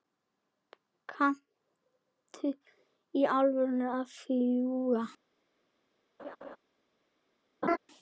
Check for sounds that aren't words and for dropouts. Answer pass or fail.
fail